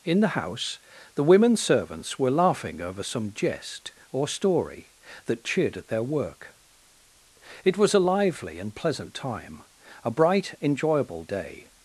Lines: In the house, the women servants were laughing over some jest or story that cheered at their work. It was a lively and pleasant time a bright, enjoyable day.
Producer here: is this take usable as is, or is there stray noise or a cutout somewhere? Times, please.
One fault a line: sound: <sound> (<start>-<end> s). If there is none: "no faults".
no faults